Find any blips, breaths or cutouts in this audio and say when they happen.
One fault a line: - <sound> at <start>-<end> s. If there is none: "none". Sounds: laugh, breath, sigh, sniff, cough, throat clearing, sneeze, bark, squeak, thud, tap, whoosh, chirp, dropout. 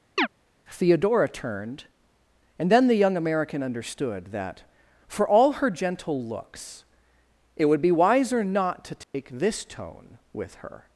- chirp at 0.2-0.3 s
- dropout at 9.0-9.1 s